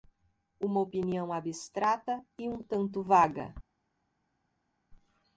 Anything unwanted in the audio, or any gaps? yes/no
no